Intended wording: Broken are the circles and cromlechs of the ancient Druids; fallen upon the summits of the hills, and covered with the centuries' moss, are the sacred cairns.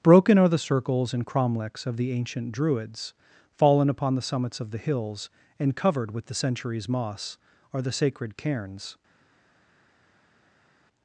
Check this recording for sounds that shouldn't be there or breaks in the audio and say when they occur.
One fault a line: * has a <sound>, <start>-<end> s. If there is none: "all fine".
all fine